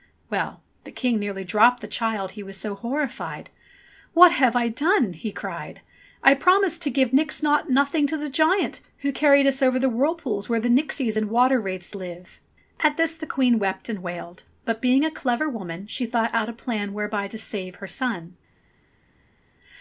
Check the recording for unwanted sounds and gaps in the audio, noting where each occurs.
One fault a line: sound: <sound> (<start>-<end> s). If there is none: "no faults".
no faults